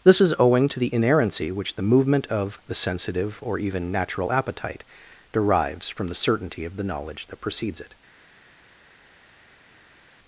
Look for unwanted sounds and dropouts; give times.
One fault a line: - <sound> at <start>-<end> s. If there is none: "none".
none